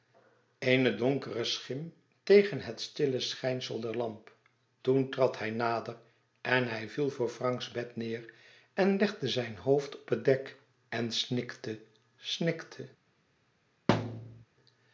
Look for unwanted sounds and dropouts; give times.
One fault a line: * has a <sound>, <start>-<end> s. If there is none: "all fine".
* has a thud, 13.9-14.4 s